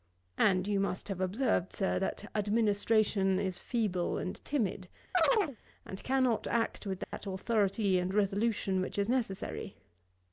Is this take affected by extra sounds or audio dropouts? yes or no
yes